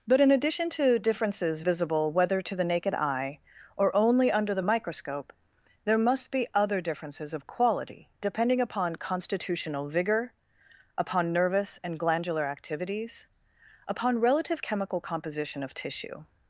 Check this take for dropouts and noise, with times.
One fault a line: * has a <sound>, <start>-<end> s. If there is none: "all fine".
all fine